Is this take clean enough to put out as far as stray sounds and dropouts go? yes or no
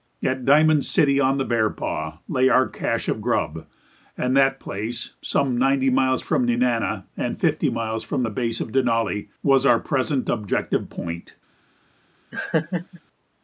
no